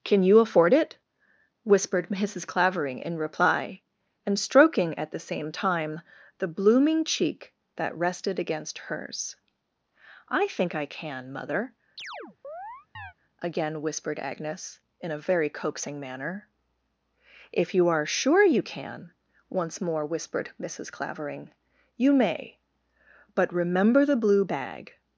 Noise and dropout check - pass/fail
fail